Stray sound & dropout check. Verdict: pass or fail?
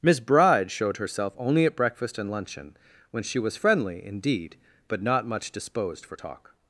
pass